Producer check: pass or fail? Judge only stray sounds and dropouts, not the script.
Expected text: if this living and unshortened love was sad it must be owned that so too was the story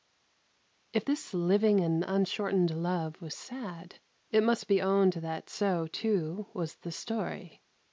pass